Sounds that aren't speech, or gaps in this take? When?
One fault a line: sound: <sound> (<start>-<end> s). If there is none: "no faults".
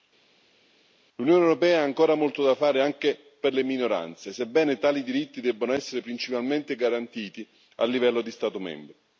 no faults